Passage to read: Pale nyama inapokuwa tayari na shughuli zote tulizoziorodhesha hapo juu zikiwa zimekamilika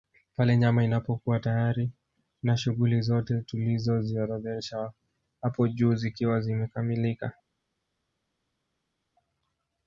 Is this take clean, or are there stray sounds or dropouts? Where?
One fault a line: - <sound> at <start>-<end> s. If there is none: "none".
none